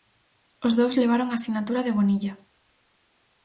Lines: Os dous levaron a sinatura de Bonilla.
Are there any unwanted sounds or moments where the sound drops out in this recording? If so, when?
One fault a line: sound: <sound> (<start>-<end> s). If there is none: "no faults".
no faults